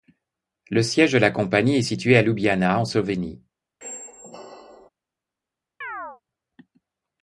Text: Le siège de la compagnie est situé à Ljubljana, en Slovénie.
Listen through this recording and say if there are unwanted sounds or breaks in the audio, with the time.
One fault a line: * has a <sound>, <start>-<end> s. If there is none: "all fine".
* has a squeak, 3.8-4.9 s
* has a chirp, 5.8-6.2 s